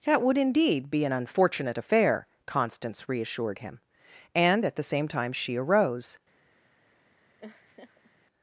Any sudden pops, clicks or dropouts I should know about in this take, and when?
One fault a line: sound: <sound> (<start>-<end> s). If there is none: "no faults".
sound: laugh (7.4-8.1 s)